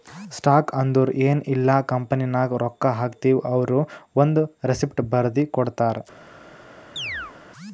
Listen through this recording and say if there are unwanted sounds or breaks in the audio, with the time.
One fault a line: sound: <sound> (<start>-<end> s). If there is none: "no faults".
sound: chirp (7.0-7.3 s)